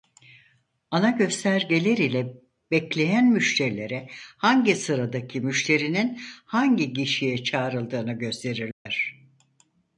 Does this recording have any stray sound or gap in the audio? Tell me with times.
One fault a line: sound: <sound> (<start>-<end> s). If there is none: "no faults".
sound: dropout (8.7-8.9 s)